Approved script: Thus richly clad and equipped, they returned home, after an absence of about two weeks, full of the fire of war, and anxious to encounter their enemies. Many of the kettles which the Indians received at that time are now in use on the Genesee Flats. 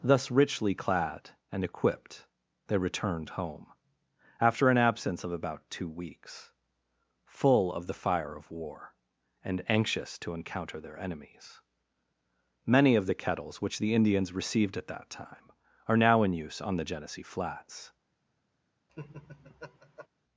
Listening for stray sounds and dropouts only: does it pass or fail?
fail